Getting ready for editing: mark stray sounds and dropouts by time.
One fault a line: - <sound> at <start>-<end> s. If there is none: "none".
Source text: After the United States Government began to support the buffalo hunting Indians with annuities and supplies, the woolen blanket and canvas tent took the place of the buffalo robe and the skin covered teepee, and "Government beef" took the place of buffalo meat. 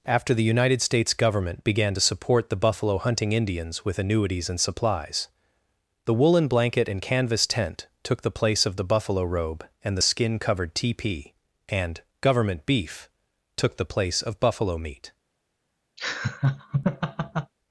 - laugh at 16.0-17.5 s